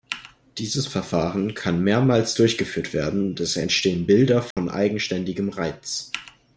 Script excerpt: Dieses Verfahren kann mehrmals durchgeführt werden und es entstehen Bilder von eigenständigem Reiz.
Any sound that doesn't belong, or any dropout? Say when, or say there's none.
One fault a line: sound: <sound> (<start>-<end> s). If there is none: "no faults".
sound: dropout (4.5-4.6 s)